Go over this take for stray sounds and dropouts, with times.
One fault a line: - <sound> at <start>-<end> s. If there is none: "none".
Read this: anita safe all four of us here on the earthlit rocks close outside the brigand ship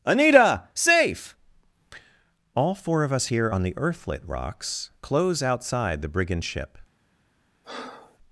- breath at 7.6-8.2 s